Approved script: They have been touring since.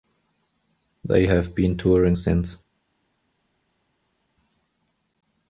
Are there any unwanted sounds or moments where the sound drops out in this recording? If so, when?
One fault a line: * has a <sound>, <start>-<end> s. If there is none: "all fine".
all fine